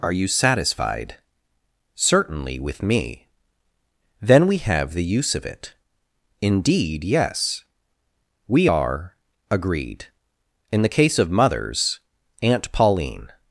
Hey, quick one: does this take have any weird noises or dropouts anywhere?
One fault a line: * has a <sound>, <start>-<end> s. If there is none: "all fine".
all fine